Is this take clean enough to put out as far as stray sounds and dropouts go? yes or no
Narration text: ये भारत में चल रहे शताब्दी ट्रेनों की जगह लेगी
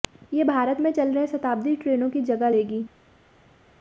yes